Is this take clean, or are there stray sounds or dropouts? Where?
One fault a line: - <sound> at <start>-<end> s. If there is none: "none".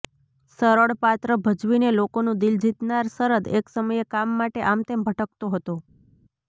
none